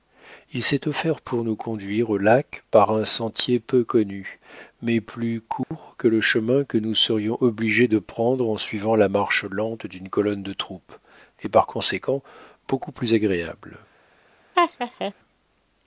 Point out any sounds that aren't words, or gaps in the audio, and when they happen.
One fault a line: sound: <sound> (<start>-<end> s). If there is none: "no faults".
sound: dropout (5.6-5.7 s)
sound: laugh (14.5-15.1 s)